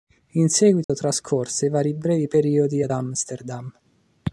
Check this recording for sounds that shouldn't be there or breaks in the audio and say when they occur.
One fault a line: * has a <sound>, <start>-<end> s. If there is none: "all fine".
* has a dropout, 0.8-0.9 s